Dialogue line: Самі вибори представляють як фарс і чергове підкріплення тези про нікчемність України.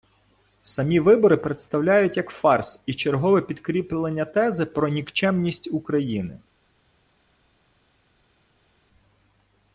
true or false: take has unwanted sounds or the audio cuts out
false